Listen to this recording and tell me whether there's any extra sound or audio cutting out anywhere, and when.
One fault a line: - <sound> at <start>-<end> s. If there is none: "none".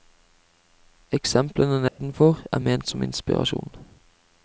- dropout at 1.9-2.0 s